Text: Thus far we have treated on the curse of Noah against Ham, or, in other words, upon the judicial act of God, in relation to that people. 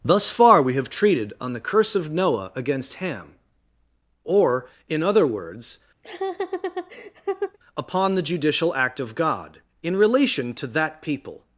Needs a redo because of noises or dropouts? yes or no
yes